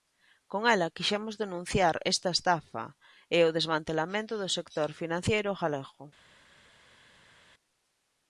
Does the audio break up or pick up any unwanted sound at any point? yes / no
no